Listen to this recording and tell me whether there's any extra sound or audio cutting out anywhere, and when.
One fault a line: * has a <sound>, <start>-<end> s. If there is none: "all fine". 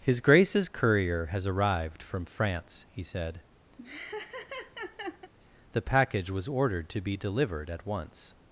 * has a laugh, 3.8-5.3 s